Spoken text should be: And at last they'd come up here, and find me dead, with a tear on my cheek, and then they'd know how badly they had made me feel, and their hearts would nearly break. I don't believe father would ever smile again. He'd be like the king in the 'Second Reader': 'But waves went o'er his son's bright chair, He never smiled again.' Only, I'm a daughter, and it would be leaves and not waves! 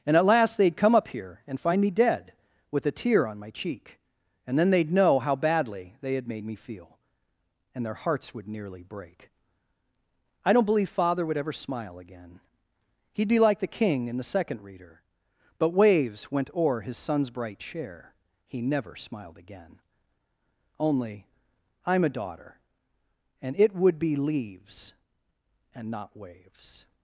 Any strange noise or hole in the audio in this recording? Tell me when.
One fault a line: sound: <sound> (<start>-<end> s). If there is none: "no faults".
no faults